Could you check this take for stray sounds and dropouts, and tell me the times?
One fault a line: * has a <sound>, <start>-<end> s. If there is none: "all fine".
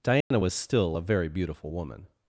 * has a dropout, 0.2-0.3 s